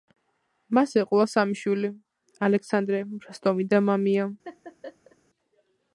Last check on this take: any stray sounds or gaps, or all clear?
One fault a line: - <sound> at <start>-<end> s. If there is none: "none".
- laugh at 4.4-5.2 s